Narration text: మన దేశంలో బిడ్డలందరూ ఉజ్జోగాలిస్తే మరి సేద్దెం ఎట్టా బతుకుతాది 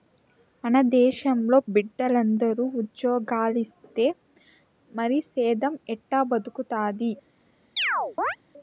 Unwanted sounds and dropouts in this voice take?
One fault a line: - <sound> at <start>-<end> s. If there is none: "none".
- chirp at 7.8-8.4 s